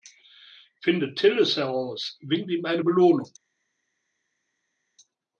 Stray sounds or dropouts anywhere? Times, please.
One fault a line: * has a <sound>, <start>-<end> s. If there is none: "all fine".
all fine